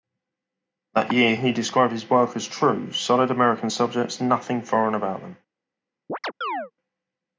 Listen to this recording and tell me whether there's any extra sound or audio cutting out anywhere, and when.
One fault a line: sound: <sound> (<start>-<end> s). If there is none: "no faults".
sound: chirp (6.1-6.7 s)